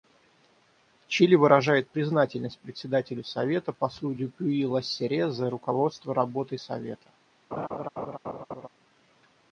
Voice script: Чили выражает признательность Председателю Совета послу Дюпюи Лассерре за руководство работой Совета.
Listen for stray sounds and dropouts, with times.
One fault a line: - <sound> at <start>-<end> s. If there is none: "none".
- laugh at 7.5-8.7 s